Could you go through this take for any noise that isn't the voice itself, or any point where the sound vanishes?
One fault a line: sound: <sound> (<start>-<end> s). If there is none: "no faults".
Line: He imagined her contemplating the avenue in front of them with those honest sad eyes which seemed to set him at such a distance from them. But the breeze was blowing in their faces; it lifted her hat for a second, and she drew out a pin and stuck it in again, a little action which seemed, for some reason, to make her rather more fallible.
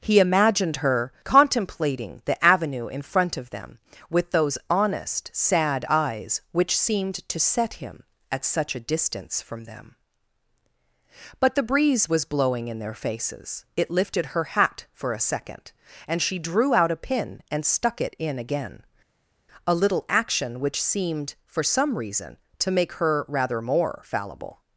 no faults